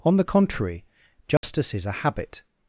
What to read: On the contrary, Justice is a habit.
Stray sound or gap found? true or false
true